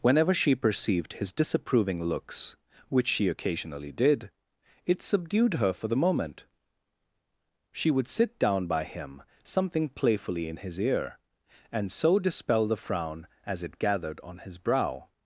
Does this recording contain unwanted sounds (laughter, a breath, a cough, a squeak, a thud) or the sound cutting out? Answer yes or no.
no